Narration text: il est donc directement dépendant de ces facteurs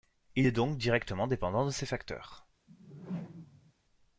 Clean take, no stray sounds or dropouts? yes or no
no